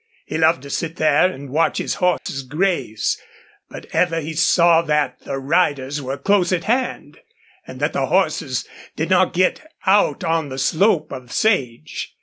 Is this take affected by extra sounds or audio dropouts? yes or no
yes